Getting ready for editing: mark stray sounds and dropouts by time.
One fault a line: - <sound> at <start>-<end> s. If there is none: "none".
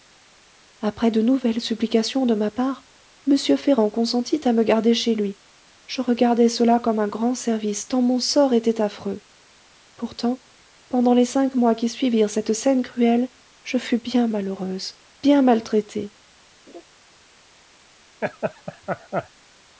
- laugh at 16.7-16.8 s
- laugh at 18.2-19.3 s